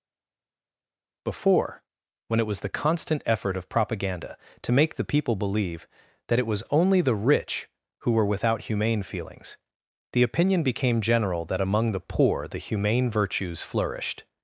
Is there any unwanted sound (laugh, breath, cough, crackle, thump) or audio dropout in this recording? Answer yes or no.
no